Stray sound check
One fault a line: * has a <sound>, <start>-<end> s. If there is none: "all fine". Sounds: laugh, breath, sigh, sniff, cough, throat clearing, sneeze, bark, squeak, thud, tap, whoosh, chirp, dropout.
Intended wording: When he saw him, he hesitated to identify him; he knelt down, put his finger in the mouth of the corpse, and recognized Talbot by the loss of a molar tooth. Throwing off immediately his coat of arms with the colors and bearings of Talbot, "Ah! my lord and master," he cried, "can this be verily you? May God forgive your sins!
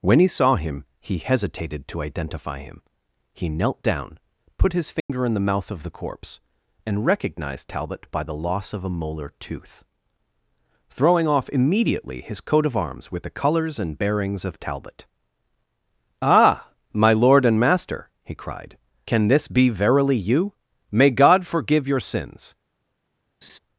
* has a dropout, 5.0-5.1 s
* has a laugh, 23.4-23.6 s